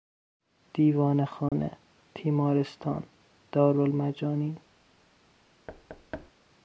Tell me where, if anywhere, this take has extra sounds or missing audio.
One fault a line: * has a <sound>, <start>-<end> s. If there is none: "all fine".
* has a dropout, 1.5-1.5 s
* has a thud, 5.7-6.3 s